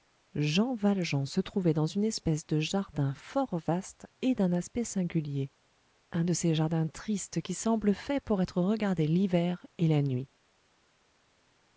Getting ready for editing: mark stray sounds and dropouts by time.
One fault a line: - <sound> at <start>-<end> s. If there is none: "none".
none